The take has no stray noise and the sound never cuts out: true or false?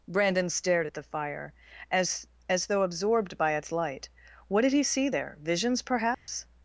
false